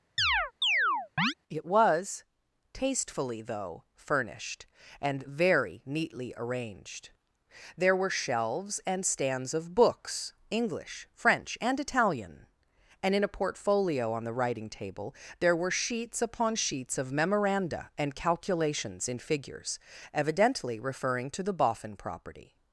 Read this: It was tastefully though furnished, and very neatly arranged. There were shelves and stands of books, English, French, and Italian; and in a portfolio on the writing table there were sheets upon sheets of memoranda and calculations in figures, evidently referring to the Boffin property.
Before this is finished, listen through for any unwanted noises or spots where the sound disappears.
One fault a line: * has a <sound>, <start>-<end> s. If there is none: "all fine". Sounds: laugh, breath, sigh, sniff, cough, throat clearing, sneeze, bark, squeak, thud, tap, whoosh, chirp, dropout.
* has a chirp, 0.2-1.3 s